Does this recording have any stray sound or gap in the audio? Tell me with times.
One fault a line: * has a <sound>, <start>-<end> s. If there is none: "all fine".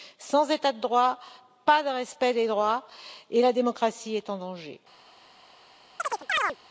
* has a chirp, 6.0-6.6 s